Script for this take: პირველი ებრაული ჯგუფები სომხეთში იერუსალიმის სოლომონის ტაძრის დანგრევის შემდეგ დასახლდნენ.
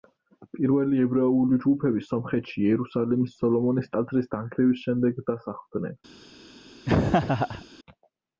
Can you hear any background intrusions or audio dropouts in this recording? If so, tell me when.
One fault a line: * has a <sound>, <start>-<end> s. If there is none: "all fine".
* has a laugh, 6.8-7.6 s